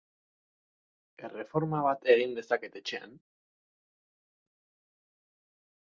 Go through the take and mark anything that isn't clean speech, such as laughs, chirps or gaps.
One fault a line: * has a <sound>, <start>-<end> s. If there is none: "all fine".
all fine